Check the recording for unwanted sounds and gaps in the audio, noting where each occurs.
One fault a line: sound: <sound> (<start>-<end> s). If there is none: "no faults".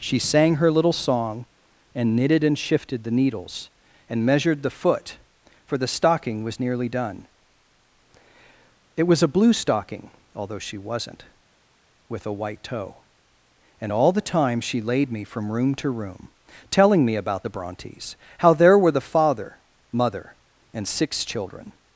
no faults